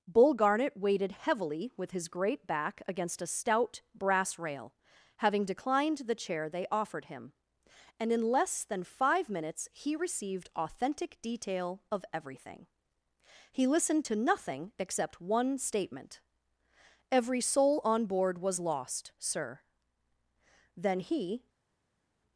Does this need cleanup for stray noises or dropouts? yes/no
no